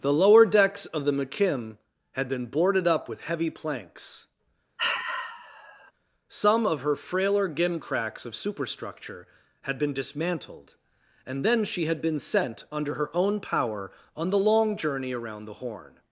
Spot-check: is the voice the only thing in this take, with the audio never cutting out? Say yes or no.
no